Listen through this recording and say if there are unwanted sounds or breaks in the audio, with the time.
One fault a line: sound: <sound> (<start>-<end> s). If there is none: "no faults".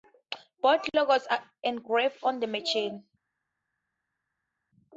no faults